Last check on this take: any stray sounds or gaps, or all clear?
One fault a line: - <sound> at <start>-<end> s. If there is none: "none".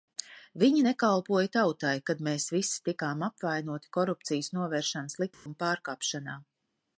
- dropout at 5.3-5.5 s